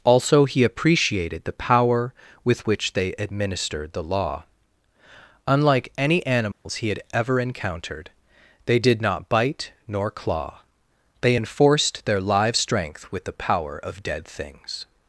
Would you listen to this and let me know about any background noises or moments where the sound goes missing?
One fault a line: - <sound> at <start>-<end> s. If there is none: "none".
- dropout at 6.5-6.7 s